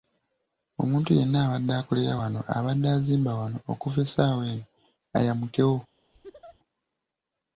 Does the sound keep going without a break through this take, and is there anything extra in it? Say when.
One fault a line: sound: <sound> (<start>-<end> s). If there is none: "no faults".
sound: laugh (6.1-6.6 s)